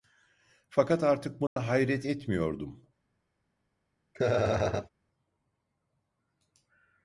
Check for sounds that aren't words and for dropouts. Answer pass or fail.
fail